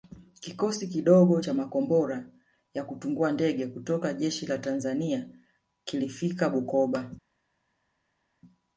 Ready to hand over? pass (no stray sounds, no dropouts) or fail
pass